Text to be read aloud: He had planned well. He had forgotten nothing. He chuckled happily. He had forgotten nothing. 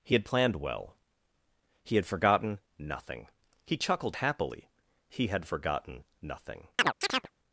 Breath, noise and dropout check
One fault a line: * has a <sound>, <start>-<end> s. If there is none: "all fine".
* has a chirp, 6.8-7.3 s